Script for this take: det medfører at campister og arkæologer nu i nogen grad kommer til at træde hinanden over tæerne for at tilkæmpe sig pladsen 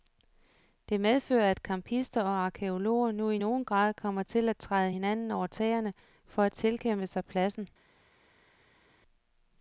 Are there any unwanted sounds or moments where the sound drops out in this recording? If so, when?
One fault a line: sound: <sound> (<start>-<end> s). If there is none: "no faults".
no faults